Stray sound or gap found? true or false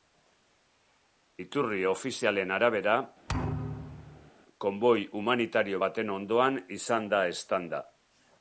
true